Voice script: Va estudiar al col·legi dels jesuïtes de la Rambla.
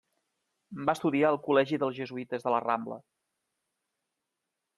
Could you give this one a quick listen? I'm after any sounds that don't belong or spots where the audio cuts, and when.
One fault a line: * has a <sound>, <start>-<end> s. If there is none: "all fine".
all fine